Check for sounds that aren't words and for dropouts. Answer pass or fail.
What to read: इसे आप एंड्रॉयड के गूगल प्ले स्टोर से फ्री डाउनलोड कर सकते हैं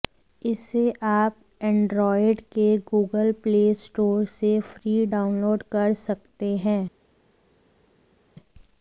pass